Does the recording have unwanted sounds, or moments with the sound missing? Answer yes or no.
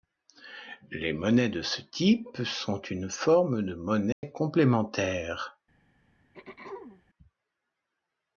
yes